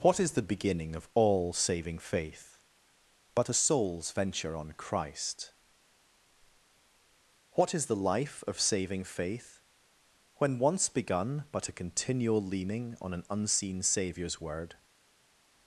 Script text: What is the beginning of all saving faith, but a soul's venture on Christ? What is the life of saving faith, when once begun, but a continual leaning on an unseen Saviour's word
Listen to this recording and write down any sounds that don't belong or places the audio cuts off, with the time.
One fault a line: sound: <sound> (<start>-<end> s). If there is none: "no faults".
no faults